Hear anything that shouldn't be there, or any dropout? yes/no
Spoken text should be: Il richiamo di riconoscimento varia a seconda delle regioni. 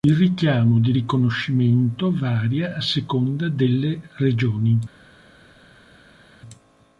no